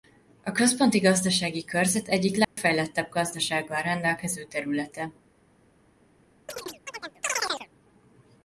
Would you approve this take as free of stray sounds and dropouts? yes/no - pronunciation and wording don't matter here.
no